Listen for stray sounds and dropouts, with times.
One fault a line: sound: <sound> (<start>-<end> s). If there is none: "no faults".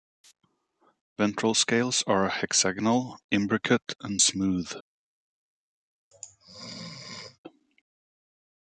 sound: sneeze (6.1-7.4 s)